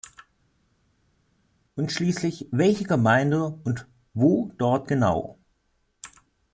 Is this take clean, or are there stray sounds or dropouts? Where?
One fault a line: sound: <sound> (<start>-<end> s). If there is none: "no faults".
no faults